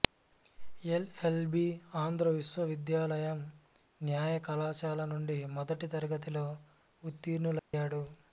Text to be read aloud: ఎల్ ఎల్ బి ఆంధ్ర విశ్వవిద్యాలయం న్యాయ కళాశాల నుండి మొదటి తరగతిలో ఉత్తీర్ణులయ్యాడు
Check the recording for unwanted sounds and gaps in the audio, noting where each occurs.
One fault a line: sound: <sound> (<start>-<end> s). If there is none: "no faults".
sound: dropout (7.6-7.7 s)